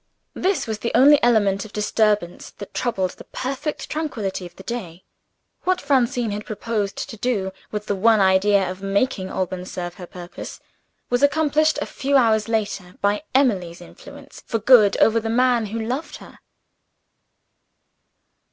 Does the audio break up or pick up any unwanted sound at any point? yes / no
no